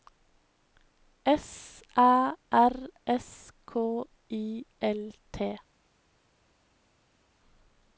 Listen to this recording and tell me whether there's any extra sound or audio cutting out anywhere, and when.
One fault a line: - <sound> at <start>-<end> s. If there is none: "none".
none